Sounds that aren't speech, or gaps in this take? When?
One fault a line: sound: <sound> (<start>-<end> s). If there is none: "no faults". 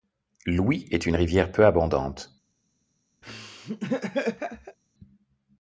sound: laugh (3.2-4.8 s)